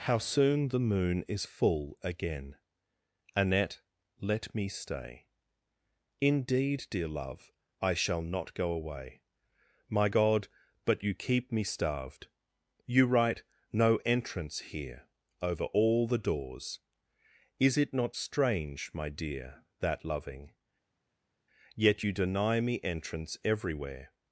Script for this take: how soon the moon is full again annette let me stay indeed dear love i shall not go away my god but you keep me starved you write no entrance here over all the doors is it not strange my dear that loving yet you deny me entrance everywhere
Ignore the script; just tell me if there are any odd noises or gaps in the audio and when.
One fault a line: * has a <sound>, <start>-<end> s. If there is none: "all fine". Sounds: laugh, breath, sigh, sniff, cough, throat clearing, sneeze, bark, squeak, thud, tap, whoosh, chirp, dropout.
all fine